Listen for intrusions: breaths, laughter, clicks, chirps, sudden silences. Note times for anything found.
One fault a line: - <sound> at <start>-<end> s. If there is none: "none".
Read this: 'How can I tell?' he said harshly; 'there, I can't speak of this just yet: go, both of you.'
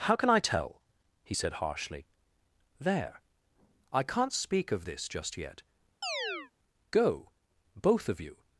- chirp at 6.0-6.5 s